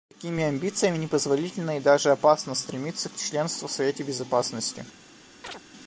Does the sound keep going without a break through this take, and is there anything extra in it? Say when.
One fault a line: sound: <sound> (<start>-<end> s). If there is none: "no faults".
sound: chirp (5.4-5.6 s)